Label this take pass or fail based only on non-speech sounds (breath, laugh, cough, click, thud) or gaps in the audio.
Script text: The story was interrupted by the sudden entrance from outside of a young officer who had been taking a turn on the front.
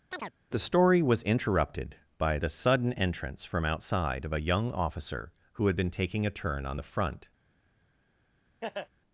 fail